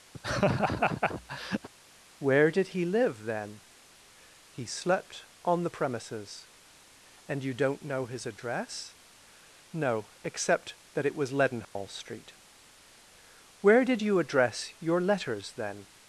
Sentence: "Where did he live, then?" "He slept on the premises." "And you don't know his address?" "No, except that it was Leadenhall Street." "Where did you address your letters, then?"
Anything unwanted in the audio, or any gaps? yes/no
yes